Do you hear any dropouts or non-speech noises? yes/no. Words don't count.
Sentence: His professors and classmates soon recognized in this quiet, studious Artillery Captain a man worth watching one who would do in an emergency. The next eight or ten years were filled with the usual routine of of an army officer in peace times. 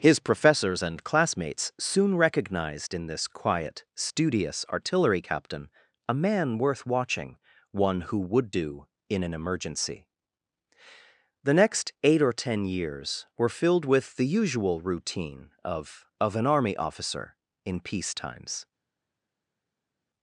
no